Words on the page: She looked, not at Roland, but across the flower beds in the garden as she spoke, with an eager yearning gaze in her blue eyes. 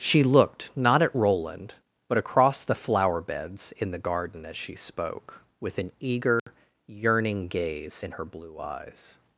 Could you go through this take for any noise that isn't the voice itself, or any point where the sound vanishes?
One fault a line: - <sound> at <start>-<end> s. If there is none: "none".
- dropout at 6.4-6.5 s